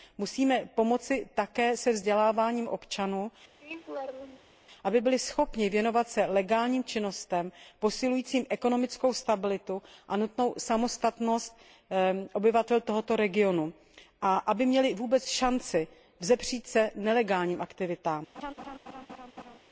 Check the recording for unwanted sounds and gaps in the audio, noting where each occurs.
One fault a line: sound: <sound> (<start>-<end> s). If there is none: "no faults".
sound: laugh (3.6-4.5 s)
sound: laugh (18.3-19.6 s)